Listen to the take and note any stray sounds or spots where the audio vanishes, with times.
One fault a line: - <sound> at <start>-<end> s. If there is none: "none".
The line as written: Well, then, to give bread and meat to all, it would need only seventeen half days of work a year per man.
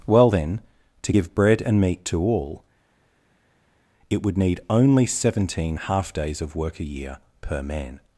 none